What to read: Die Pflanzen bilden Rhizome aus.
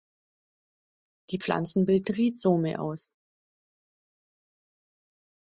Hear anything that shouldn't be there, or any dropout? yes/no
no